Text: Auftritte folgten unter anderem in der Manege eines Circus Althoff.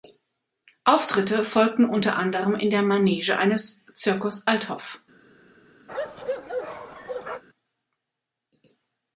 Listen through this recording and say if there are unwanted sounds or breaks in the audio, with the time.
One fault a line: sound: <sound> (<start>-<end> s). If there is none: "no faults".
sound: bark (5.9-7.4 s)